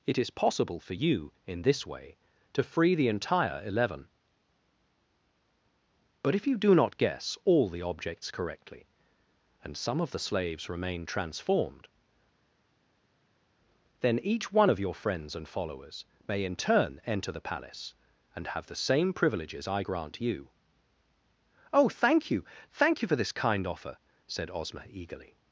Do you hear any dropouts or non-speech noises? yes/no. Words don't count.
no